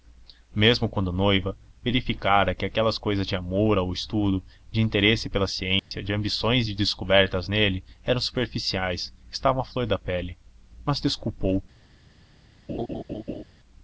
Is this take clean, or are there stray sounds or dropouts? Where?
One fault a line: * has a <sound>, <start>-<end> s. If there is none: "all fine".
* has a dropout, 5.8-5.9 s
* has a laugh, 12.7-13.4 s